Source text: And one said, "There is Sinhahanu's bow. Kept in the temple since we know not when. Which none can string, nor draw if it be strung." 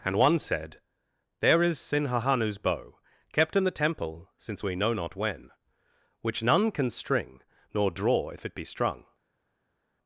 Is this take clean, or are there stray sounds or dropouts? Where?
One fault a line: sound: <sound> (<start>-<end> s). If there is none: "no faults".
no faults